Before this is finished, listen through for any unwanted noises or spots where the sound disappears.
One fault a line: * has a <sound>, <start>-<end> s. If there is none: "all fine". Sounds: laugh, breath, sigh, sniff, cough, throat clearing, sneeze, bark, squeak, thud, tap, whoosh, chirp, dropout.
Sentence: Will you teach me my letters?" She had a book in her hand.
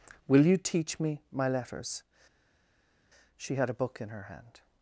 all fine